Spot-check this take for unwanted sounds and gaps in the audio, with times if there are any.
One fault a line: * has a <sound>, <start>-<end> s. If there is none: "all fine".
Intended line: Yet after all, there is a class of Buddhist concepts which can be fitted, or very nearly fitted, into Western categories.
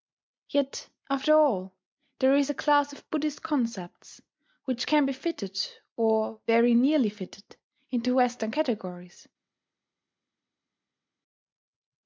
all fine